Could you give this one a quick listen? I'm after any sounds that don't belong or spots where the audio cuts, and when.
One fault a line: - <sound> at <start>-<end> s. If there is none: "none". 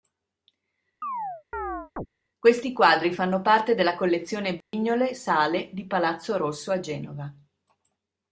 - chirp at 1.0-2.1 s
- dropout at 4.6-4.7 s